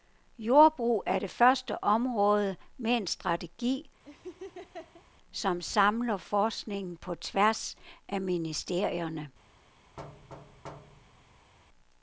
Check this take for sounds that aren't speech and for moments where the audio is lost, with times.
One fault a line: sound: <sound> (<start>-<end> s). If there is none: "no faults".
sound: laugh (4.1-5.0 s)
sound: thud (10.0-11.5 s)